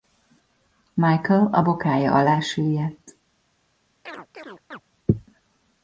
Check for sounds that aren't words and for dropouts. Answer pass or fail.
fail